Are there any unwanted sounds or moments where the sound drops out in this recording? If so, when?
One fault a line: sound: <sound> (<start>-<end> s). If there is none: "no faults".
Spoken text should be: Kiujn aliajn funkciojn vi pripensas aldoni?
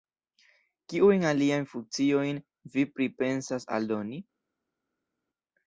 no faults